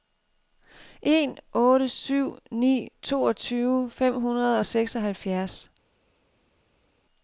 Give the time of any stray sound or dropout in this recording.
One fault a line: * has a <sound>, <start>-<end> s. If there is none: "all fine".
all fine